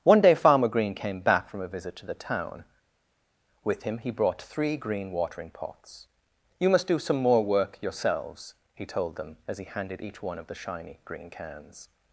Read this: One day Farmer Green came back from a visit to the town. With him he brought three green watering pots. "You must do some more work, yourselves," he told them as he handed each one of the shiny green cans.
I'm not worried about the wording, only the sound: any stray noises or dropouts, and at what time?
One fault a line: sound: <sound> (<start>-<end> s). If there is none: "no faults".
no faults